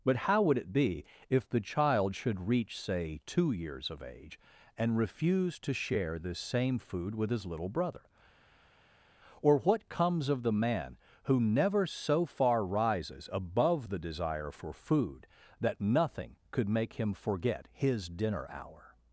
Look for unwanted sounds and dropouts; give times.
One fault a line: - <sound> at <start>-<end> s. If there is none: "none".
none